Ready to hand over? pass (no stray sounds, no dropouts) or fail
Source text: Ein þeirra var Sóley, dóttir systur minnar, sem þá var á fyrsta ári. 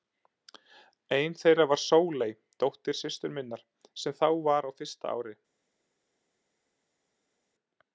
pass